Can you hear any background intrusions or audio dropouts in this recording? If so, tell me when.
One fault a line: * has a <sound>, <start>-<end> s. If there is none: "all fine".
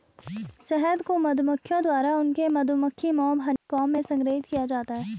* has a dropout, 3.6-3.7 s